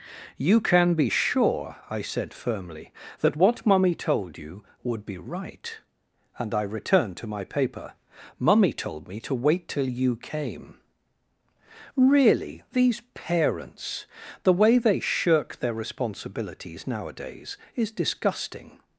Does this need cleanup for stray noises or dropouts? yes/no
no